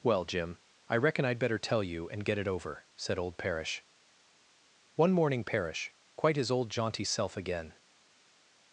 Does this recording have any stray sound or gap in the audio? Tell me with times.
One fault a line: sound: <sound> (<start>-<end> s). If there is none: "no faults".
no faults